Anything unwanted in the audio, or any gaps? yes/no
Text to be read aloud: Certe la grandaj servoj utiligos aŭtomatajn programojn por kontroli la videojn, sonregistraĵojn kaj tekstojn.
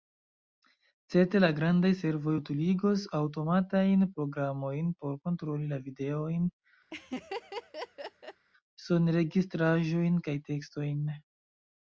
yes